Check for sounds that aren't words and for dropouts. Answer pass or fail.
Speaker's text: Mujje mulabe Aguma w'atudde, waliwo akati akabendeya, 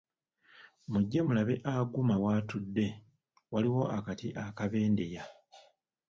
pass